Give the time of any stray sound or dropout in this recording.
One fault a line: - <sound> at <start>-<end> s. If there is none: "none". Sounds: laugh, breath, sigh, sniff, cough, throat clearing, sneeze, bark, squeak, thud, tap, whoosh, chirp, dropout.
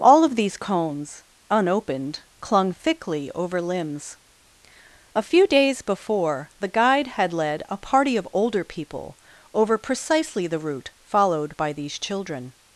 none